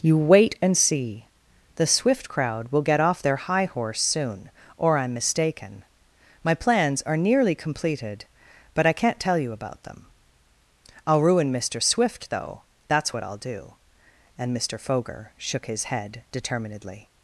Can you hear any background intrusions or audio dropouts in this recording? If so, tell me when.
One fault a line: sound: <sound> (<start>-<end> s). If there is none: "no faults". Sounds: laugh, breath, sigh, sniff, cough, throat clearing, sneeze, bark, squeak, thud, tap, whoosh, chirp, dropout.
no faults